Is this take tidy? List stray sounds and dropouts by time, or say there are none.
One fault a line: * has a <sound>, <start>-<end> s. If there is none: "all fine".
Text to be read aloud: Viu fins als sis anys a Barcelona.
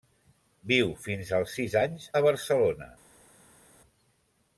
all fine